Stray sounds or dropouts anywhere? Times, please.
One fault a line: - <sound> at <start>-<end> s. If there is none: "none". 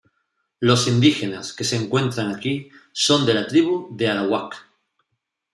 none